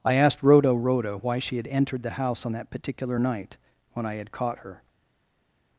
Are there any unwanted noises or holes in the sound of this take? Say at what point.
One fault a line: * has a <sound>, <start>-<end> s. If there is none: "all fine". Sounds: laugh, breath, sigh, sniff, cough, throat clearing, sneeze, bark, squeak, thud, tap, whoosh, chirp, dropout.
all fine